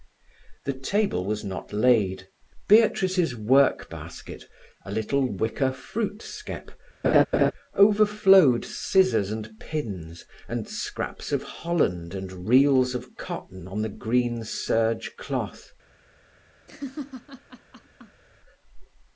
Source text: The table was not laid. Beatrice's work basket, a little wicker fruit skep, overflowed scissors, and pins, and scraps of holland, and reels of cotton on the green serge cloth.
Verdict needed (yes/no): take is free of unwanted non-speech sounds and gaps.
no